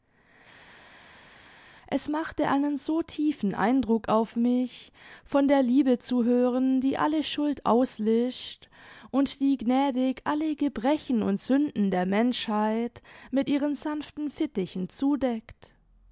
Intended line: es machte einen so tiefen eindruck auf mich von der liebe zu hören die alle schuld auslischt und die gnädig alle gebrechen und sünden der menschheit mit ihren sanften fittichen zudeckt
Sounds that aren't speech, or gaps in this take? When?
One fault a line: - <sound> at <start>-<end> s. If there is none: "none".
none